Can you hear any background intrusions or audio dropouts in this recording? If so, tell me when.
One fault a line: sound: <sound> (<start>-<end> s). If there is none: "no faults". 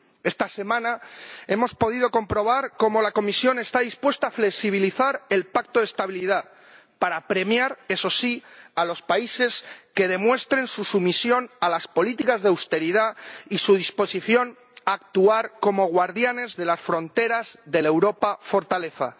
no faults